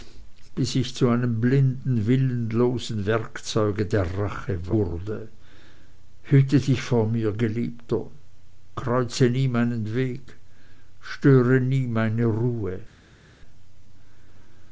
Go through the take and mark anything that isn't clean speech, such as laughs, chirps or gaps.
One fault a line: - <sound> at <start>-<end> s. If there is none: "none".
none